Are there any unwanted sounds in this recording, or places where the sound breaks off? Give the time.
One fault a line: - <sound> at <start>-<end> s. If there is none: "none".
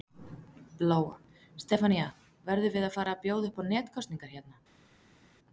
none